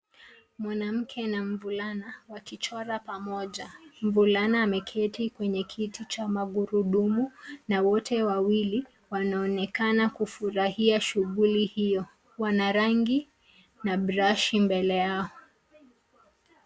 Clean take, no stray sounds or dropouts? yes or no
yes